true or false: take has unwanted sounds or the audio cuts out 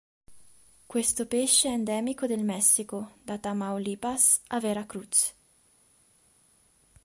false